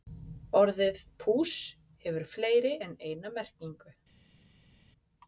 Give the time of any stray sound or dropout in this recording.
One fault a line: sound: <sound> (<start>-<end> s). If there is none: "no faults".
no faults